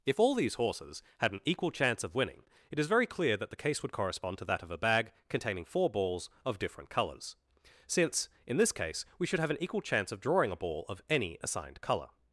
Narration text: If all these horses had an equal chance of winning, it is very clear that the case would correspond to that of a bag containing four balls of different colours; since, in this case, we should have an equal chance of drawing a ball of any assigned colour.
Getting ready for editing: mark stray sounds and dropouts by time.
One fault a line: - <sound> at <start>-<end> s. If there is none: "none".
none